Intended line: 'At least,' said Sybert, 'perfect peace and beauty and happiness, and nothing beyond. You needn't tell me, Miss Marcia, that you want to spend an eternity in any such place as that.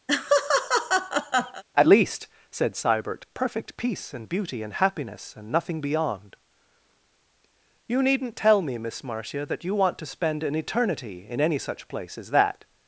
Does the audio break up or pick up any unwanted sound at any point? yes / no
yes